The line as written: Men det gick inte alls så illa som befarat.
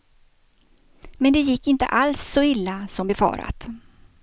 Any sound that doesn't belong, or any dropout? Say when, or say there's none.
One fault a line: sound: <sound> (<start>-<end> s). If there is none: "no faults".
no faults